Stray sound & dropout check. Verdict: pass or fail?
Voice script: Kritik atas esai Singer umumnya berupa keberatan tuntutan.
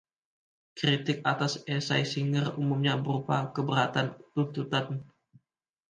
pass